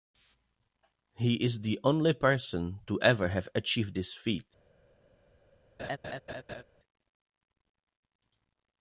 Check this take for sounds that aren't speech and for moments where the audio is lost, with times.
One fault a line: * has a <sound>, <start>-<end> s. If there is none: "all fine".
* has a laugh, 5.8-6.6 s